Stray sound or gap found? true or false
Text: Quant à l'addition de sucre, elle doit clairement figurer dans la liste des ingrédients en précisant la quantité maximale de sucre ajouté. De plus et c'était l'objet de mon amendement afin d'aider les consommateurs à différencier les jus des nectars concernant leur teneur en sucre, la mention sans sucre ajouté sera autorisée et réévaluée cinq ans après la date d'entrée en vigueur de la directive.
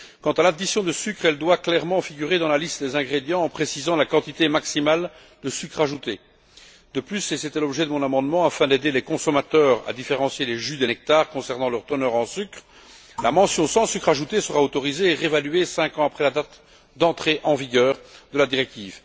false